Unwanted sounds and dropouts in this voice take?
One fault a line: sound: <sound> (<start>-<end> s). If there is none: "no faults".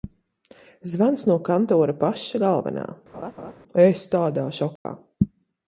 sound: laugh (3.1-3.5 s)
sound: dropout (4.8-4.8 s)